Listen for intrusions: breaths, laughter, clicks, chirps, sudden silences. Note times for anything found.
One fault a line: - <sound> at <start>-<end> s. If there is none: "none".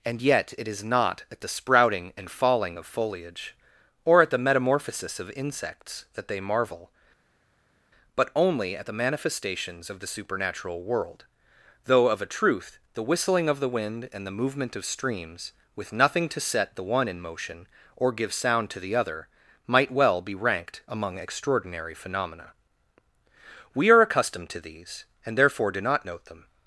none